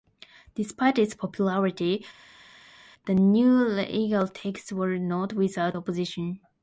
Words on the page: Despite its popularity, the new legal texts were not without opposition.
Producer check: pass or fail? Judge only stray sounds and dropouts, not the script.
pass